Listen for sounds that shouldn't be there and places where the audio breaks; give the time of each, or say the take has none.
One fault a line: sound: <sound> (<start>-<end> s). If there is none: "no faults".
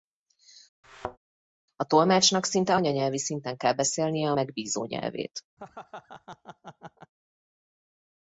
sound: thud (0.8-1.2 s)
sound: laugh (5.6-7.1 s)